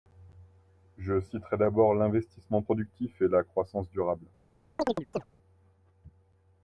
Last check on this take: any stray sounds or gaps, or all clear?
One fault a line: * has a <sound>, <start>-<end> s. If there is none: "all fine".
* has a chirp, 4.8-5.2 s